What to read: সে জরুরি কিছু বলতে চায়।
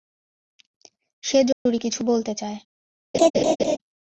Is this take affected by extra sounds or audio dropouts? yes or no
yes